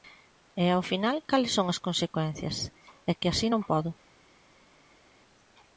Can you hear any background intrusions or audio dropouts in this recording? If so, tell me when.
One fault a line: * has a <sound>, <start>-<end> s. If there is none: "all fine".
all fine